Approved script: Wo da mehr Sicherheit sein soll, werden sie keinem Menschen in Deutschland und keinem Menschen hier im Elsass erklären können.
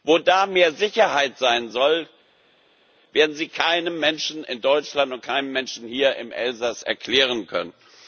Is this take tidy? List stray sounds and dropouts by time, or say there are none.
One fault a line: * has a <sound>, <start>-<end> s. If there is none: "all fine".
all fine